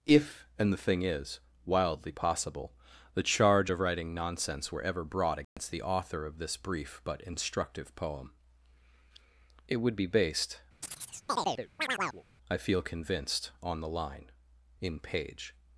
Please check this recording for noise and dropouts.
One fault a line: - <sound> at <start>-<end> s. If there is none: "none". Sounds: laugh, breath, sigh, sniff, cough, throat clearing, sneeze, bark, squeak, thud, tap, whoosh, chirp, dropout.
- dropout at 5.4-5.6 s
- chirp at 10.8-12.2 s